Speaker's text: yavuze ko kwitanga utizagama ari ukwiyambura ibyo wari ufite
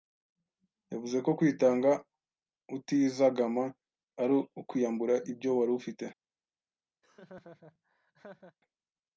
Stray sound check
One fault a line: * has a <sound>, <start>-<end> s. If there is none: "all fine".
* has a laugh, 7.0-8.6 s